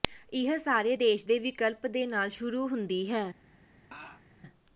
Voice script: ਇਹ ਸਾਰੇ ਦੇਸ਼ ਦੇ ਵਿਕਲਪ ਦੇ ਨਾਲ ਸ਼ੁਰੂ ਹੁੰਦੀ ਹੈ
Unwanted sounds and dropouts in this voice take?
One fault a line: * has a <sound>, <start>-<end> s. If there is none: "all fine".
* has a laugh, 3.9-4.2 s